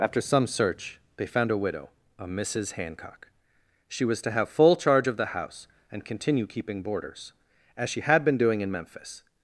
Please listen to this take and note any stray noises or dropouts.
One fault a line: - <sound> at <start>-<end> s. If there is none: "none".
none